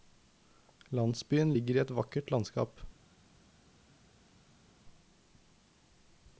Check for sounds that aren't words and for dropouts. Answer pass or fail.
pass